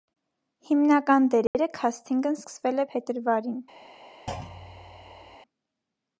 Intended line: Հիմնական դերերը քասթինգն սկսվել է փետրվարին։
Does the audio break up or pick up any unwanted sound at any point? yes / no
yes